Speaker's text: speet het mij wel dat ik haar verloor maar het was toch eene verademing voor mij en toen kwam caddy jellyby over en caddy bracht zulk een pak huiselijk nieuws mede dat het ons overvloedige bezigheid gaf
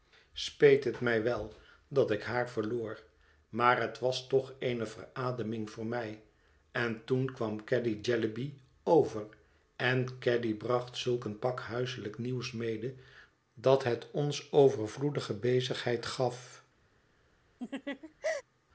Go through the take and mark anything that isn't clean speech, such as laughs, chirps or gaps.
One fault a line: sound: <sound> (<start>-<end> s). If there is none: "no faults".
sound: laugh (17.6-18.4 s)